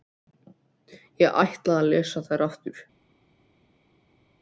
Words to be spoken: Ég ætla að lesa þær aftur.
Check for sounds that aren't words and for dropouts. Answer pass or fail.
pass